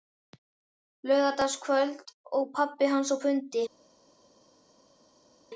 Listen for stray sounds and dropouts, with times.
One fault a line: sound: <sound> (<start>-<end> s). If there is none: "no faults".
no faults